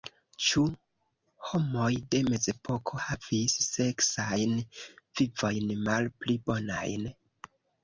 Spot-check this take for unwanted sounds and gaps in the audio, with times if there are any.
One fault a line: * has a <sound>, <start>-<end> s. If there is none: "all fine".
all fine